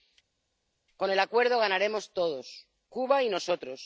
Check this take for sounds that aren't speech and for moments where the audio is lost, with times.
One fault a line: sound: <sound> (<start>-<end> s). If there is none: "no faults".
no faults